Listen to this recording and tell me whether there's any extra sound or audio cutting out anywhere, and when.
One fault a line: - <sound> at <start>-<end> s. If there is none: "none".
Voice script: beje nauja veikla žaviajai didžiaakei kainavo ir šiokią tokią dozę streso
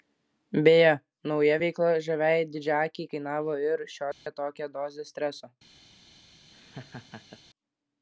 - dropout at 4.1-4.3 s
- laugh at 6.5-7.4 s